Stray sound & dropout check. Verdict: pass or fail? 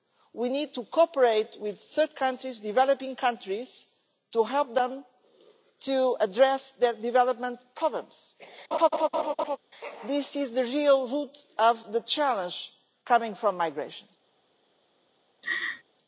fail